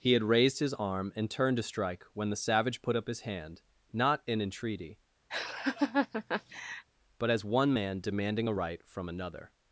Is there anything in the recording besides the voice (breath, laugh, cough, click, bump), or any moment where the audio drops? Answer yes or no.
yes